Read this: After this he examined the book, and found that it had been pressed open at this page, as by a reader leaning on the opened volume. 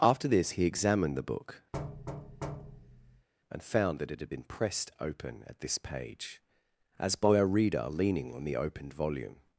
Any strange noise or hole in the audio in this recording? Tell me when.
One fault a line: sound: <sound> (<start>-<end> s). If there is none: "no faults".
sound: thud (1.7-3.3 s)